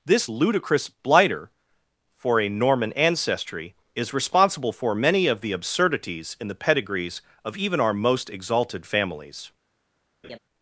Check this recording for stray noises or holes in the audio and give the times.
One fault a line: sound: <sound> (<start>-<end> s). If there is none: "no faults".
sound: laugh (10.2-10.4 s)